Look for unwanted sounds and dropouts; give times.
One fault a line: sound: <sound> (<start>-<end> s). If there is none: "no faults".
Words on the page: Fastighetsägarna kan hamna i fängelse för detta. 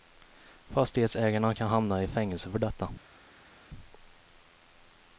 no faults